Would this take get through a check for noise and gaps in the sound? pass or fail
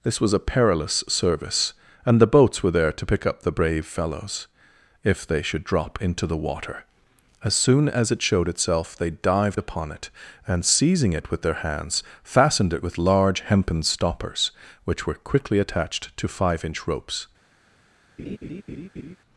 fail